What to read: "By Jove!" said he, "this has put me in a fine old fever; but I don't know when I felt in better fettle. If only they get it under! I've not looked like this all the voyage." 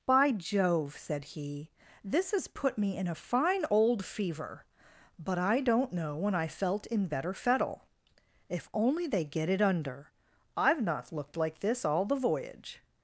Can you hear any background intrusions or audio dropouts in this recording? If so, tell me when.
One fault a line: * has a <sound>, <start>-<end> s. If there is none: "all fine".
all fine